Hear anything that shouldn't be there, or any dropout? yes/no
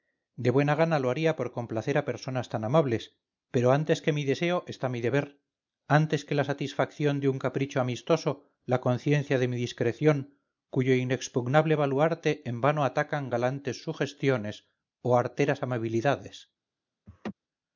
yes